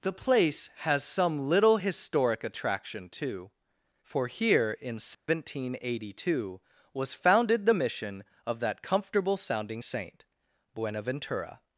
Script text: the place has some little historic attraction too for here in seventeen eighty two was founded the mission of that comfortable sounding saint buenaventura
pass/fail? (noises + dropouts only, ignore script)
fail